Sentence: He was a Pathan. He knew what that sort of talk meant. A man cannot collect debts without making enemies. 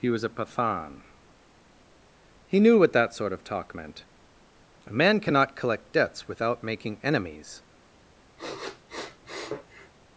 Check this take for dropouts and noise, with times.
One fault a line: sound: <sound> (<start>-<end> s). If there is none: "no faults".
sound: sniff (8.4-9.9 s)